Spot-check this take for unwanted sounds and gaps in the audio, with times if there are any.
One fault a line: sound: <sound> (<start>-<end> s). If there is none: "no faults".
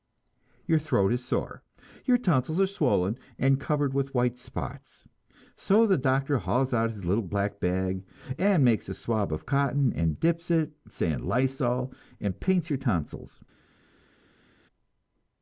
no faults